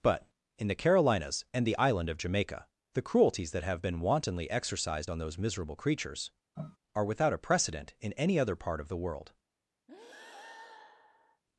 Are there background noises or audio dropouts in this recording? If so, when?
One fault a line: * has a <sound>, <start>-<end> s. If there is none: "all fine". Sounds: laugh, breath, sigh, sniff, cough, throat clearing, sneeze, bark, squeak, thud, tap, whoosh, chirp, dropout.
* has a sniff, 6.6-6.8 s
* has a breath, 9.9-11.4 s